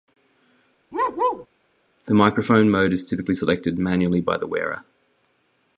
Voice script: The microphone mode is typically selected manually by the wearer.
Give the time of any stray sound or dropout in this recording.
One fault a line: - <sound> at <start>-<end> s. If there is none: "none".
- bark at 0.9-1.5 s